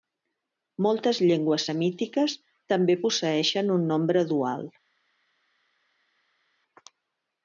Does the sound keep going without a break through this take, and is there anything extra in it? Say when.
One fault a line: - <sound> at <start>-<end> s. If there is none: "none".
none